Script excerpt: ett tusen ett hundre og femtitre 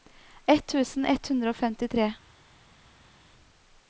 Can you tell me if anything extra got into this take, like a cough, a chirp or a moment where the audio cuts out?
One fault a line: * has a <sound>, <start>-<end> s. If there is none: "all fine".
all fine